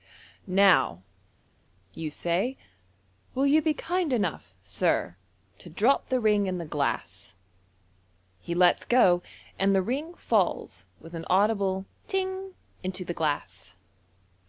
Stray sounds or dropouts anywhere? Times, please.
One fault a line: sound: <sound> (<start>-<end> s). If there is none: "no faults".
no faults